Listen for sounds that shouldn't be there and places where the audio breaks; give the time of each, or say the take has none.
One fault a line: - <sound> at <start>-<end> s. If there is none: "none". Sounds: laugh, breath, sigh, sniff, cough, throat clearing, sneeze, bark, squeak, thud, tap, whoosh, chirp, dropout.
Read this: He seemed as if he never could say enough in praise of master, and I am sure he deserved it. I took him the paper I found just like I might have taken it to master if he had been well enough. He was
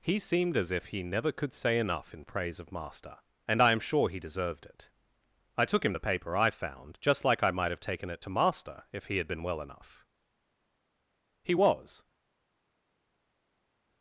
none